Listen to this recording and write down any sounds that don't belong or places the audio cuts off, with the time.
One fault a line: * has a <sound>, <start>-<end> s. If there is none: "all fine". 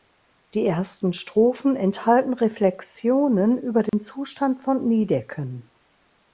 * has a dropout, 3.9-3.9 s